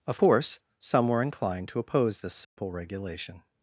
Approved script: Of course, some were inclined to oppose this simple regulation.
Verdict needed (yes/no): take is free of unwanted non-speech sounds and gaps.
no